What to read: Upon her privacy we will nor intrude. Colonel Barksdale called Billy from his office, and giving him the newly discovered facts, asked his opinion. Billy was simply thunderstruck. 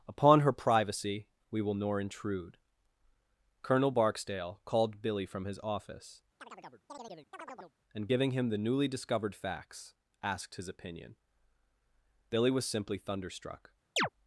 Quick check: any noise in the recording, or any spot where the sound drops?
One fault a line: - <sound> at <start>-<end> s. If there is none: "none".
- chirp at 6.4-7.7 s
- chirp at 14.0-14.1 s